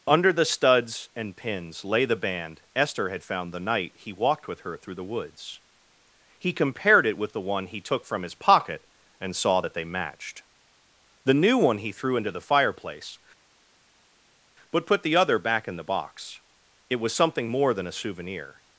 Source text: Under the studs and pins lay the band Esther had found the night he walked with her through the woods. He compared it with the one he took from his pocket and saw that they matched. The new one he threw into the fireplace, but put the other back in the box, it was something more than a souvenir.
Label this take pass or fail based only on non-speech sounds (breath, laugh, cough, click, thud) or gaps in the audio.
pass